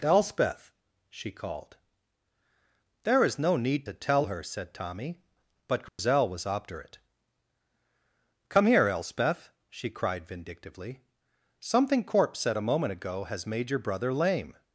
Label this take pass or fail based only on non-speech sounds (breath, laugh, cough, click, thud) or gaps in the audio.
fail